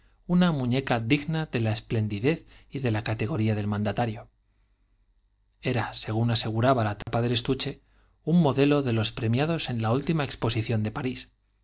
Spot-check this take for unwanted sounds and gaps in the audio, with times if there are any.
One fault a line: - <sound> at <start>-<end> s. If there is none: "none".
- dropout at 7.0-7.1 s